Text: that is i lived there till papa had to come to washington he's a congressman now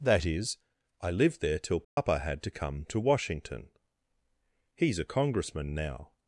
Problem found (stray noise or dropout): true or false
true